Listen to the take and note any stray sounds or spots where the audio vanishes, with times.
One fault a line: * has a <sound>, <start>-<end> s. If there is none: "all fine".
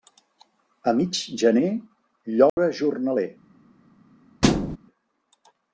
* has a dropout, 2.5-2.6 s
* has a thud, 4.4-4.8 s